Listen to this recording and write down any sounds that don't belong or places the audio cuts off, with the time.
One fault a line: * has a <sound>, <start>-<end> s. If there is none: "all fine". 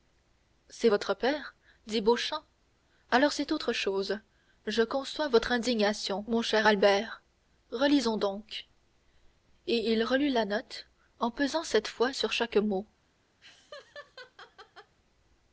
* has a laugh, 13.4-15.0 s